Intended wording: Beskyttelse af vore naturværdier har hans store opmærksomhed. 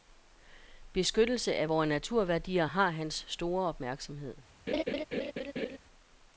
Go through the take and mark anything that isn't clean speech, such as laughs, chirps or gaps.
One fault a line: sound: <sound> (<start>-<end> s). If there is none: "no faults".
sound: laugh (4.7-5.8 s)